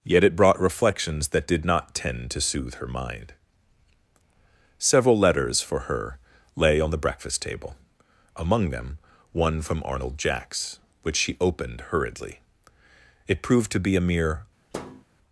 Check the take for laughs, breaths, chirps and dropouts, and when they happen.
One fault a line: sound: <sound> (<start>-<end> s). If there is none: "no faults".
sound: thud (14.7-15.0 s)